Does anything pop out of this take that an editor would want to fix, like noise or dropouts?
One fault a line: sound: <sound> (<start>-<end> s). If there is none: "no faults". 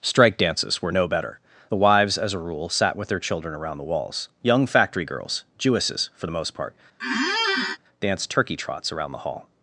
sound: squeak (7.0-7.8 s)